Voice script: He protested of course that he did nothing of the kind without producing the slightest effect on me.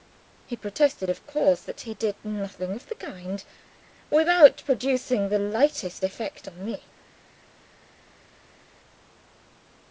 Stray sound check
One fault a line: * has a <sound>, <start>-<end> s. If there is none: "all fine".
all fine